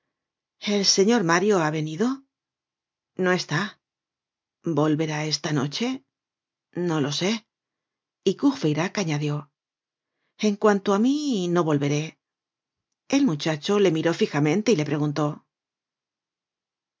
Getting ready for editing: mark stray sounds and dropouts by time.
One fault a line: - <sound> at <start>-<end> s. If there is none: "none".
none